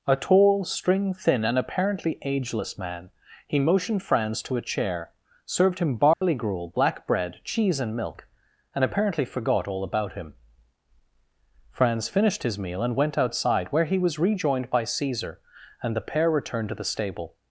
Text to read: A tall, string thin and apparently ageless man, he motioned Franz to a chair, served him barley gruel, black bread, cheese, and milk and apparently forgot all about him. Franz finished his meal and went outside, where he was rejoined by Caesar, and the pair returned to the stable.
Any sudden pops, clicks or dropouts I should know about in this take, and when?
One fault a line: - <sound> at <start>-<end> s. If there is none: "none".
- dropout at 6.1-6.2 s